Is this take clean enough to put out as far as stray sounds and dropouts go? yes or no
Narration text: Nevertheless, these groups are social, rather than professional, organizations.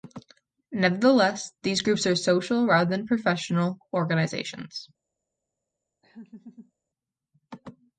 no